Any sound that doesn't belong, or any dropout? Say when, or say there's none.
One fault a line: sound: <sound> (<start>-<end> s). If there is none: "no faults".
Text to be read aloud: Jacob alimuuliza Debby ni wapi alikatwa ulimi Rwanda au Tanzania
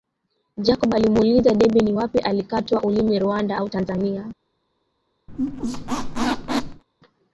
sound: squeak (5.3-6.8 s)